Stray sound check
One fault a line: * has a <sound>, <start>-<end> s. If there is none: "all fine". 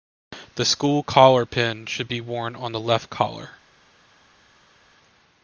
all fine